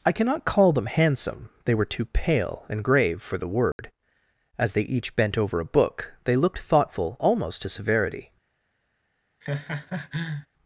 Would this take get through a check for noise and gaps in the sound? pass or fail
fail